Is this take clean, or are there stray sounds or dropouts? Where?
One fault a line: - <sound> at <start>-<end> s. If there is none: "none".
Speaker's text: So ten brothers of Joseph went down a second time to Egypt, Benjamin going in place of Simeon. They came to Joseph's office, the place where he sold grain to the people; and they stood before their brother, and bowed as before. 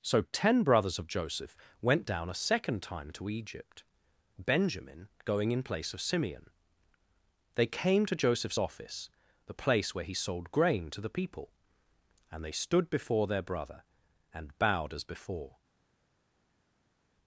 none